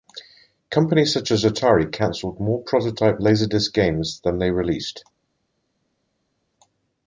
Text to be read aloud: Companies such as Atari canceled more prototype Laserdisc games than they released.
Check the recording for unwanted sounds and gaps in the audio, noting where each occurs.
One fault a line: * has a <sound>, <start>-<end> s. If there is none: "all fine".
all fine